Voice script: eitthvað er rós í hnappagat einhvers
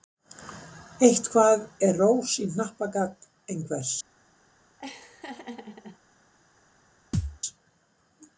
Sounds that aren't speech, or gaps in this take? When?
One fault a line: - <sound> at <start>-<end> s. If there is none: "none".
- laugh at 4.8-6.0 s
- thud at 7.1-7.4 s